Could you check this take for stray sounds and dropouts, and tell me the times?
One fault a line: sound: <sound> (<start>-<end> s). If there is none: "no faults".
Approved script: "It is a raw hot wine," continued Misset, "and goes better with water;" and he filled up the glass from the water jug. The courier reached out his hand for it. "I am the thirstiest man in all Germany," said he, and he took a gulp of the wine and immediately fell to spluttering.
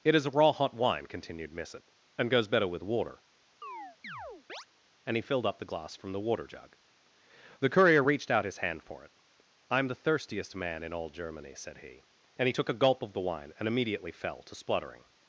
sound: chirp (3.6-4.7 s)